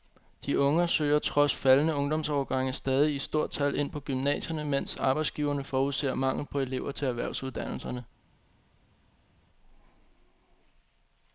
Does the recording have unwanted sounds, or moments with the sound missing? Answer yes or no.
no